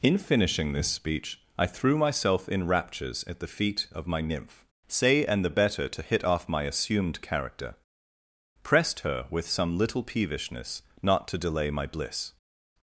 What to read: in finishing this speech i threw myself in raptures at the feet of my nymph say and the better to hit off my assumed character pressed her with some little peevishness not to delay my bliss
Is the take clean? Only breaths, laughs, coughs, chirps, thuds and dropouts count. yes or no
yes